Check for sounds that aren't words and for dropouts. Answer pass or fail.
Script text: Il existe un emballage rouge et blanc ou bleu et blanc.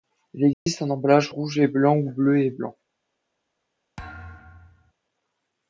fail